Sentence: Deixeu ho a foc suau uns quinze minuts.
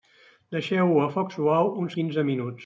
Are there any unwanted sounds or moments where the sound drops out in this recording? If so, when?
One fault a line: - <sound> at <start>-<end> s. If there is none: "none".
none